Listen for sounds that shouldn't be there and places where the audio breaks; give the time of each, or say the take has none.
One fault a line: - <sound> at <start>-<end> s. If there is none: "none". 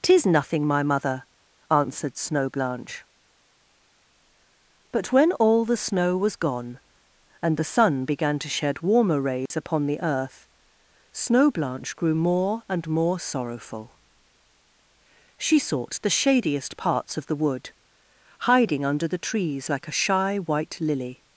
- dropout at 9.5-9.5 s